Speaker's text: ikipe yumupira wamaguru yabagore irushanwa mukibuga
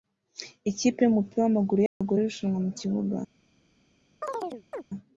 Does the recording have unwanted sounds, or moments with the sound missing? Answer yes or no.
yes